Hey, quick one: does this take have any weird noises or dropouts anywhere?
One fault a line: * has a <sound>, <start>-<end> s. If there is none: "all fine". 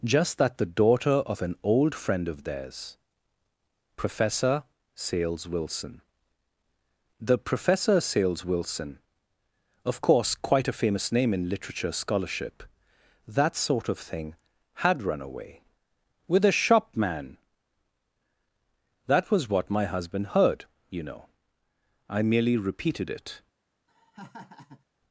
* has a laugh, 23.9-24.8 s